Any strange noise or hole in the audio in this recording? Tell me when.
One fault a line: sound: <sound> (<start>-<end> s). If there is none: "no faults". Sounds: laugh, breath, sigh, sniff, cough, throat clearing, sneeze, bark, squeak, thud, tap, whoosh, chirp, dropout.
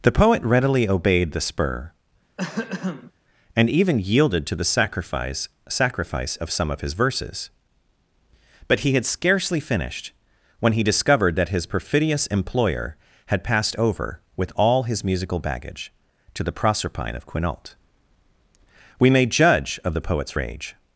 sound: throat clearing (2.4-3.1 s)